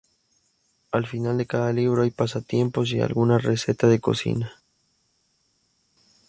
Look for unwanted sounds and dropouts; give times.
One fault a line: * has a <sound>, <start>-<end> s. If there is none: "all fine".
all fine